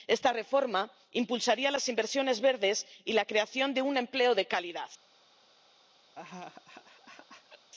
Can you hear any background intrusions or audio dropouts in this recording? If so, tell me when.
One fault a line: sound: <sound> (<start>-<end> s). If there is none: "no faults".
sound: laugh (6.2-7.7 s)